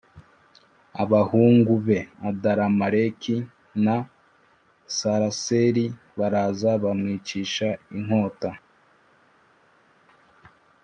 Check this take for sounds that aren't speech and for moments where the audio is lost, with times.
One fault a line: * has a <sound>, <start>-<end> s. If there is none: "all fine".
all fine